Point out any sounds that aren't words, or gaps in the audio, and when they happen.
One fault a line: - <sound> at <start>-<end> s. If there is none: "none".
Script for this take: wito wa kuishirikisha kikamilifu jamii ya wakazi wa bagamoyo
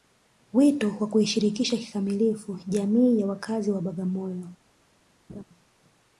- laugh at 5.3-5.4 s